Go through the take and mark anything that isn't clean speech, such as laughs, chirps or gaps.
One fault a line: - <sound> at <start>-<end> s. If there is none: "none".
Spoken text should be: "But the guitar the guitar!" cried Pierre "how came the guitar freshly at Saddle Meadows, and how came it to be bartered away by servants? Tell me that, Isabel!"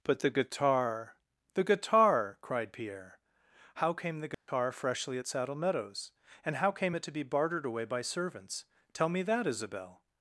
- dropout at 4.3-4.5 s